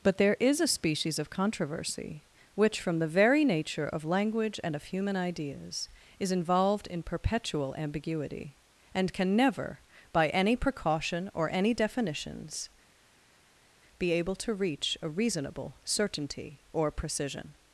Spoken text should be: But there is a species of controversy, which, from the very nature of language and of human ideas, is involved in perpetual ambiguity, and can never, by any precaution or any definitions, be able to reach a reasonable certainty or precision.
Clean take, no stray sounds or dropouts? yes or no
yes